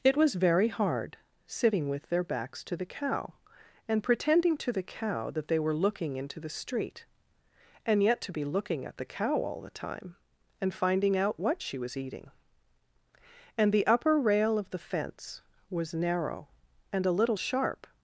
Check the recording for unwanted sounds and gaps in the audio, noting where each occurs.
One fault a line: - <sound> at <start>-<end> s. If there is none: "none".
none